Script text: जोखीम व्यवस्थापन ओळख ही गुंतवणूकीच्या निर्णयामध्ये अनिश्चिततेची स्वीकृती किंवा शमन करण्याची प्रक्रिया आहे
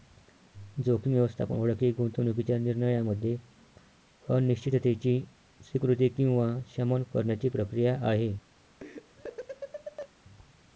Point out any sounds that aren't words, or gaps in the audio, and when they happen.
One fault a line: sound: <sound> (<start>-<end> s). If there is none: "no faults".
sound: laugh (8.8-10.1 s)